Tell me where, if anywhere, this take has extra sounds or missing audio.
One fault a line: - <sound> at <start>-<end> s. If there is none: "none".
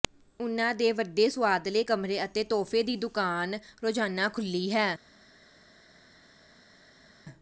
none